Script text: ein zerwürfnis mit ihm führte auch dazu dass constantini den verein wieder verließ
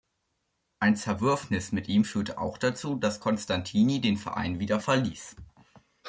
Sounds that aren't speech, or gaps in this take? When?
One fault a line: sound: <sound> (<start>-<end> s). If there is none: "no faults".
no faults